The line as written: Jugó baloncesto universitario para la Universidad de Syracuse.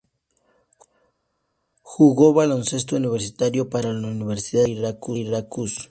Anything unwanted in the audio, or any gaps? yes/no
no